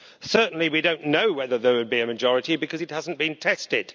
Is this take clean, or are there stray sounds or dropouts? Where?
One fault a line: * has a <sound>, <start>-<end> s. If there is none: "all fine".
all fine